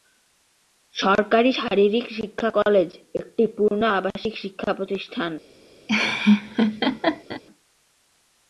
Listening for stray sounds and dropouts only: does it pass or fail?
fail